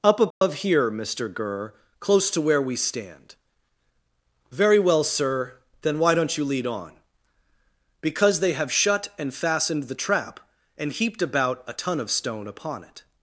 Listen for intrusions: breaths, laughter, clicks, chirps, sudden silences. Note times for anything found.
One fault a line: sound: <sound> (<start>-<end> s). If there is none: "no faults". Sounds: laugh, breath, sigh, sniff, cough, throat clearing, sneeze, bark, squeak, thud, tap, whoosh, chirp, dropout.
sound: dropout (0.3-0.4 s)